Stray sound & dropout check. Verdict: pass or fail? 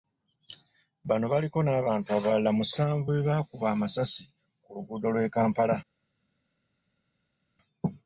pass